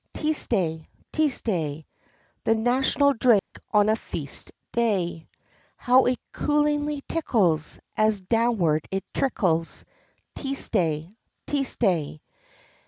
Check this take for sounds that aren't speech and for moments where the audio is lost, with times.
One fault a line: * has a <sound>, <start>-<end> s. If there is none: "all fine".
* has a dropout, 3.4-3.5 s